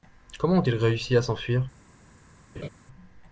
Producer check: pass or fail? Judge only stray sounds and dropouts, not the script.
fail